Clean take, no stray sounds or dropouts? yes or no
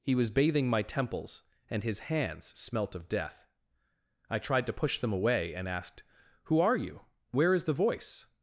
yes